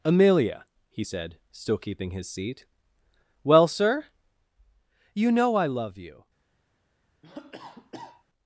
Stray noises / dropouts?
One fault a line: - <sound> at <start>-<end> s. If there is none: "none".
- cough at 7.2-8.2 s